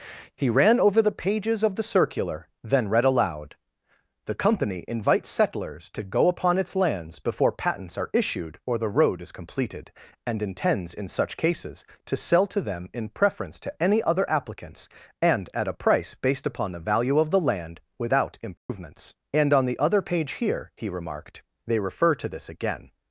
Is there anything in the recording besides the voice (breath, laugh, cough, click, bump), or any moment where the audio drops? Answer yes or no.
yes